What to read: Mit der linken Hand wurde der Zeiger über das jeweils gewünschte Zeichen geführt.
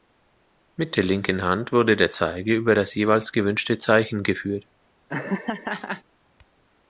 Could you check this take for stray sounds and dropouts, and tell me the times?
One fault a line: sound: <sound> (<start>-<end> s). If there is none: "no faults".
sound: laugh (5.1-6.0 s)